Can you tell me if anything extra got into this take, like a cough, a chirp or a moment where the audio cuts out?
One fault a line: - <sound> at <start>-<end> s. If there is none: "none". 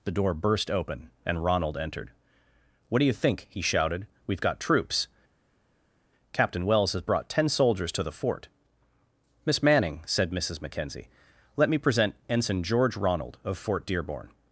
none